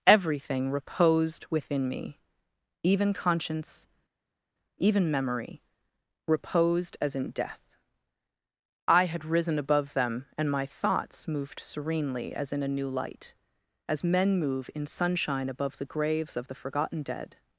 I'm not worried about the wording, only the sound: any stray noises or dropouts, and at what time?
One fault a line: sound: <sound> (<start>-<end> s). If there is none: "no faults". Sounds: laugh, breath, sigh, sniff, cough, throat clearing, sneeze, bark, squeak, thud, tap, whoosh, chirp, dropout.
no faults